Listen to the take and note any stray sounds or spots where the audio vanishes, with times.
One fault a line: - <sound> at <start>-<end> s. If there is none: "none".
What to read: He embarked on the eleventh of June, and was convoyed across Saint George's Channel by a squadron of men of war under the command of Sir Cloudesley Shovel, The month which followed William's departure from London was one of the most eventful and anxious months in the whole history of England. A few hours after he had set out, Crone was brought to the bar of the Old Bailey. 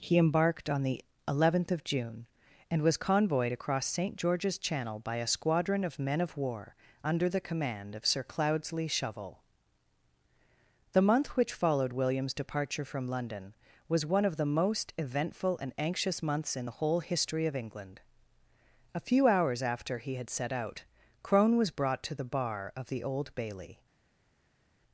none